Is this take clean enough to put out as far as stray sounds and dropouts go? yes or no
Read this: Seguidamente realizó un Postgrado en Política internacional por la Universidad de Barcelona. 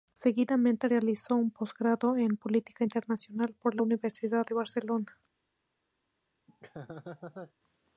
no